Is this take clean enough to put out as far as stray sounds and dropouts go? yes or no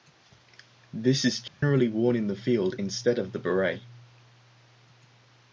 no